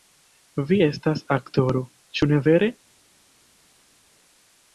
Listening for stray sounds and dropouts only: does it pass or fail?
pass